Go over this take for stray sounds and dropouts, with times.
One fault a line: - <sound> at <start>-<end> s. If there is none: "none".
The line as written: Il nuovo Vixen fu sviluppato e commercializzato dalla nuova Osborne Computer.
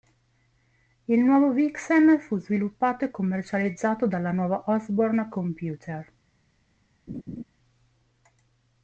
- laugh at 7.1-7.4 s